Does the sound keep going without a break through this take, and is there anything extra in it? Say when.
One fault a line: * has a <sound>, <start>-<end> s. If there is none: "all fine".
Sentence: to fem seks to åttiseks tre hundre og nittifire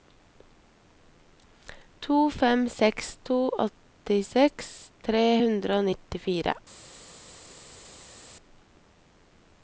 all fine